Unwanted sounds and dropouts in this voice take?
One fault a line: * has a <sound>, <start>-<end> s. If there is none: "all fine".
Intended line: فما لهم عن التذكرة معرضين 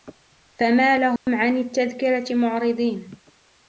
* has a dropout, 1.2-1.3 s